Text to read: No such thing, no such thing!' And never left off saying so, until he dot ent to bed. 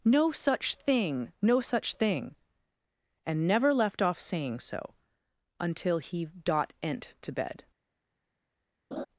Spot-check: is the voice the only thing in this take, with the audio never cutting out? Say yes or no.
no